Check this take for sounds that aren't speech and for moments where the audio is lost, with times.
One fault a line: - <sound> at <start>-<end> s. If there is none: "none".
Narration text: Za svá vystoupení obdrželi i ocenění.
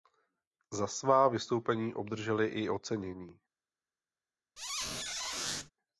- squeak at 4.6-5.7 s